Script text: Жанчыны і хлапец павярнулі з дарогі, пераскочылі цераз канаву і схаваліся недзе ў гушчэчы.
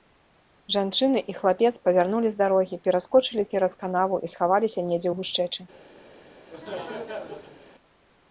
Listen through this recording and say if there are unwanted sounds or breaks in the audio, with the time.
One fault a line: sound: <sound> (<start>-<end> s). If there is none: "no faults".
sound: laugh (6.5-7.6 s)